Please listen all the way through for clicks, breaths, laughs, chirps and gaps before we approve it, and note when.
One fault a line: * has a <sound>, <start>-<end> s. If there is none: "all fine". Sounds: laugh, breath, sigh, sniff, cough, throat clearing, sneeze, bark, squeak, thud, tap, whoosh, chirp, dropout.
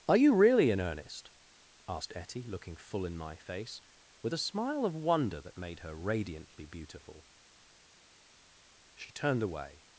all fine